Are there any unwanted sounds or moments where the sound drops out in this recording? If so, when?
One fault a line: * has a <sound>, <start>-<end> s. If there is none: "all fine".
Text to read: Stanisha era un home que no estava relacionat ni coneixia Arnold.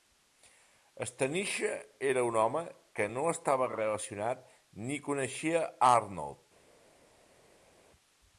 all fine